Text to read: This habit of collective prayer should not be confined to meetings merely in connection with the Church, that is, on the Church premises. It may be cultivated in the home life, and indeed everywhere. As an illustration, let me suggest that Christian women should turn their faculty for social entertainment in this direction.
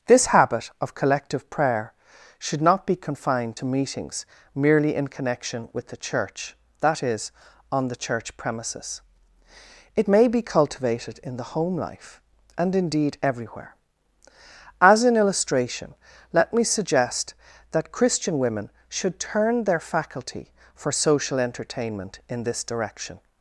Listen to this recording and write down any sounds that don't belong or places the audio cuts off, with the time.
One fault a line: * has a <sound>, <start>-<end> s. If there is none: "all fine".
all fine